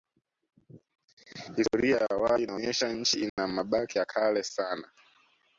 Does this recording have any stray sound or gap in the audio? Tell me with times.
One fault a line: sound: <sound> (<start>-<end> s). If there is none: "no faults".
sound: dropout (3.3-3.4 s)